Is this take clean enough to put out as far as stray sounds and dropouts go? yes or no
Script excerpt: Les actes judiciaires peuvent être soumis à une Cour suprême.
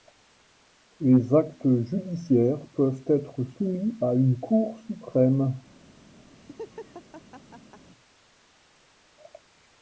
no